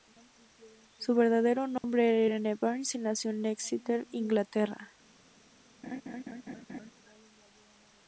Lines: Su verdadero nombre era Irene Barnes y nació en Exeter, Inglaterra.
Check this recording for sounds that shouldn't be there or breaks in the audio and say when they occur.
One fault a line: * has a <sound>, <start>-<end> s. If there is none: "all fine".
* has a dropout, 1.8-1.8 s
* has a laugh, 5.8-6.9 s